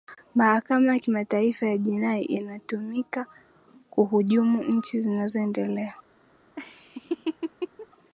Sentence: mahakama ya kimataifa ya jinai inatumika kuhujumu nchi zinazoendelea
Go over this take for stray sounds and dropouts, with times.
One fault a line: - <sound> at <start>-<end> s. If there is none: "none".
- laugh at 6.6-7.9 s